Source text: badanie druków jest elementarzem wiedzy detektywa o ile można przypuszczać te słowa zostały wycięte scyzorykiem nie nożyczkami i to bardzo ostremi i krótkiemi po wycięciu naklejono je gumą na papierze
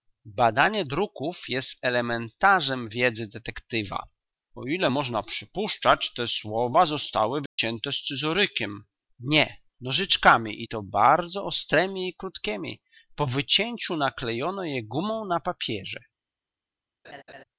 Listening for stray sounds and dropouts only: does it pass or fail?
fail